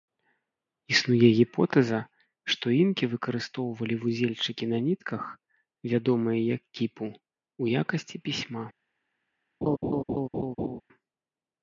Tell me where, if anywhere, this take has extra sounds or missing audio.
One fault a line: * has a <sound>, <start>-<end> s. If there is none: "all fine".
* has a laugh, 9.6-10.8 s